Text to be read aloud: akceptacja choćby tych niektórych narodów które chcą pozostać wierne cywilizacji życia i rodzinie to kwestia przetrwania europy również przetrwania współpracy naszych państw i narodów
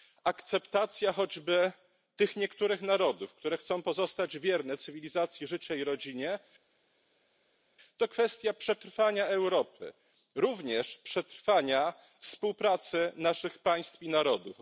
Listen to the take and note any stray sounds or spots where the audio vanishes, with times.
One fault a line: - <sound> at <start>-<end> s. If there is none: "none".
none